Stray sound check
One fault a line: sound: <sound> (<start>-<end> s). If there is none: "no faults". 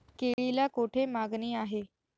sound: dropout (0.3-0.4 s)